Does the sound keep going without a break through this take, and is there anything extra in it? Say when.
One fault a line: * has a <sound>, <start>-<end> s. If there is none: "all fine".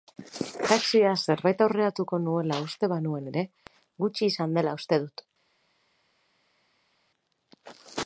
all fine